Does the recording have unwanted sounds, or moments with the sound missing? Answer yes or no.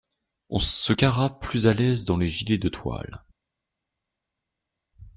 no